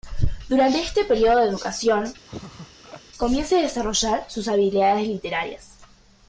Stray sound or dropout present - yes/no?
yes